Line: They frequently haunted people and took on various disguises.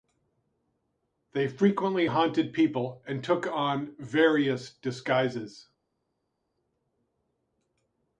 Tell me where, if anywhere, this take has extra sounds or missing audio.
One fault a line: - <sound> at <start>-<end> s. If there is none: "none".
none